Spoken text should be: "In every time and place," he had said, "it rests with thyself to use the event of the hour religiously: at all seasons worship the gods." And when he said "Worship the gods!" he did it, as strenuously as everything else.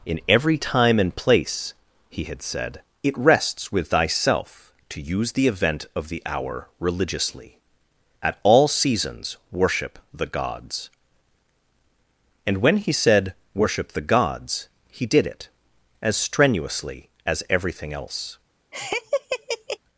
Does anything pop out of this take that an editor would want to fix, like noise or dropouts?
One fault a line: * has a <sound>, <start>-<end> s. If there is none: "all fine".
* has a laugh, 18.7-19.8 s